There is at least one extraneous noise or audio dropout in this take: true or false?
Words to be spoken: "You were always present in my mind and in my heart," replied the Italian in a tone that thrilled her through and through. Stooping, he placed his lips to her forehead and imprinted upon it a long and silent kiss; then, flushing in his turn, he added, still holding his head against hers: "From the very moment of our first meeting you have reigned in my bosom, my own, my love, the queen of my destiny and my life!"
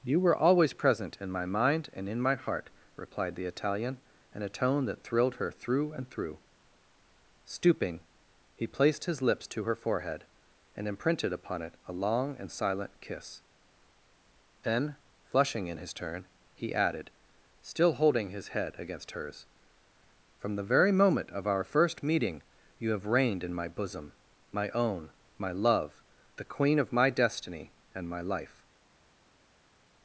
false